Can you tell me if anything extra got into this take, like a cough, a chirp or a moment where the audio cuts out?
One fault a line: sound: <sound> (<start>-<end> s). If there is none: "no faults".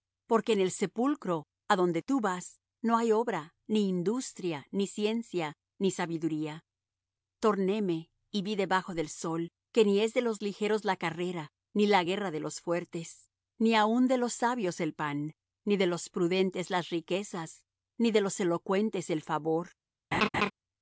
sound: laugh (20.1-20.5 s)